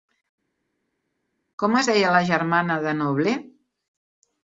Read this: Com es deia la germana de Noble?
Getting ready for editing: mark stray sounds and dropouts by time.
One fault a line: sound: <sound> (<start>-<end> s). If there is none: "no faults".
no faults